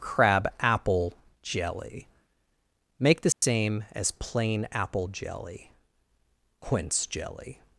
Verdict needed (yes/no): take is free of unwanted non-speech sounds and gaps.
no